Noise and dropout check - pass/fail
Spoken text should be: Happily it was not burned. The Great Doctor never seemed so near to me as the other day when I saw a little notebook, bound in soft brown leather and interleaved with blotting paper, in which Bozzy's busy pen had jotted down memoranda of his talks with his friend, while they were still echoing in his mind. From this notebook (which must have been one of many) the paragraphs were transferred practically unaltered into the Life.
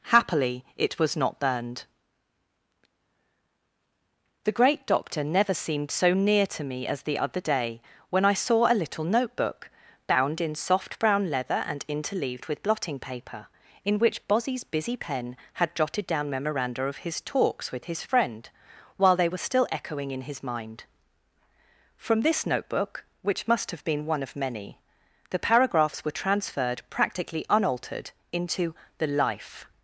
pass